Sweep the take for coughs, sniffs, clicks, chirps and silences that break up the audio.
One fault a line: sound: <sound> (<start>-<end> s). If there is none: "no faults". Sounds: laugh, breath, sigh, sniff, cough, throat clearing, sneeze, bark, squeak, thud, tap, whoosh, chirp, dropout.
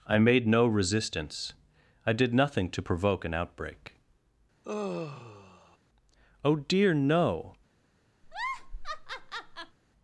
sound: sigh (4.6-5.8 s)
sound: laugh (8.2-9.8 s)